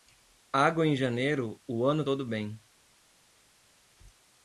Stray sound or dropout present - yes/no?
no